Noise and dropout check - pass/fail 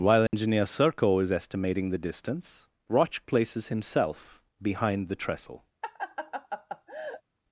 fail